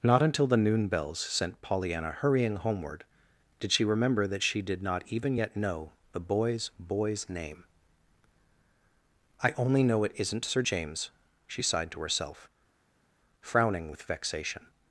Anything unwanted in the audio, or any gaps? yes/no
no